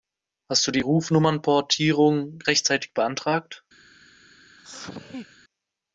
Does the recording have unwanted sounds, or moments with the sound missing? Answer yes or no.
yes